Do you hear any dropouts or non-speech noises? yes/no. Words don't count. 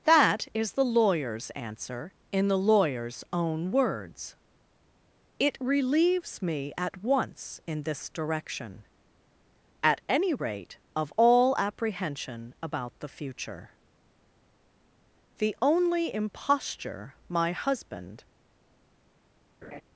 yes